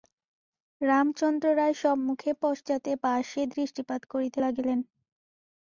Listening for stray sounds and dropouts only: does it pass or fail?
pass